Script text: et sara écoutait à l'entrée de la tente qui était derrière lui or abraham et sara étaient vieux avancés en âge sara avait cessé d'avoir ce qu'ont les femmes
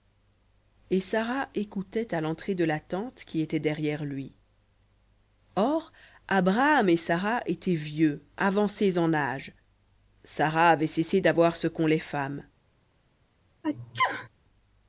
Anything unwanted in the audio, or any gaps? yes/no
yes